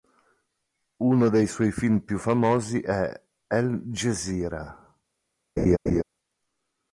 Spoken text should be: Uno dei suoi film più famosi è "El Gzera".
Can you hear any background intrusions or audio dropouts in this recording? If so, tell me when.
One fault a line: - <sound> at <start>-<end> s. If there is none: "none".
- laugh at 5.6-6.0 s